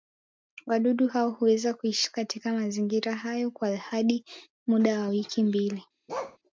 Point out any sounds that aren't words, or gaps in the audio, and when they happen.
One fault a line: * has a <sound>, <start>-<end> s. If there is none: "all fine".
* has a bark, 6.1-6.4 s